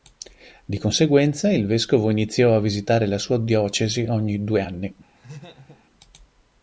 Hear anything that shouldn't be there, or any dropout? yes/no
yes